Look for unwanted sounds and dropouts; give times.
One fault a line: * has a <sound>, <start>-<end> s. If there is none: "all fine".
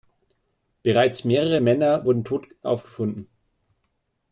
all fine